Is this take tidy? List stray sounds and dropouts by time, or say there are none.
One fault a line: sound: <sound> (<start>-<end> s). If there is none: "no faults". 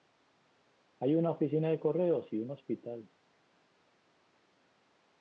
no faults